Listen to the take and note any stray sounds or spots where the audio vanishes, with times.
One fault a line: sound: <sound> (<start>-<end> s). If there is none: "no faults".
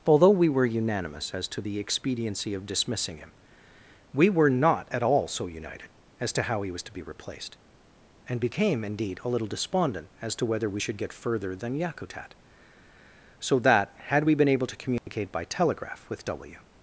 sound: dropout (15.0-15.1 s)